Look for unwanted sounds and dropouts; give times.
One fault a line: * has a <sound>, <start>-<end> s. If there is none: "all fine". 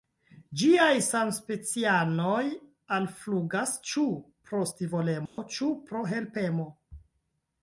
* has a dropout, 5.3-5.4 s